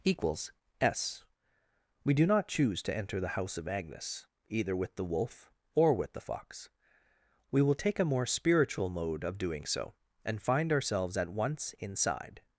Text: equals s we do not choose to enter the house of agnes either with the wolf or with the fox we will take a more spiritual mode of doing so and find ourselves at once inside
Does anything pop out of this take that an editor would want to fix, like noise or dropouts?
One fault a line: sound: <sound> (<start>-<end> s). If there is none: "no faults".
no faults